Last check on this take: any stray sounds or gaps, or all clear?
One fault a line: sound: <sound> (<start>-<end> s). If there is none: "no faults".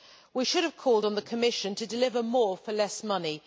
no faults